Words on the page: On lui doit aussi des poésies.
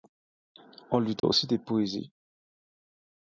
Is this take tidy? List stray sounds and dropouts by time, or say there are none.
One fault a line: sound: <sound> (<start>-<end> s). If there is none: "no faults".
sound: dropout (1.2-1.2 s)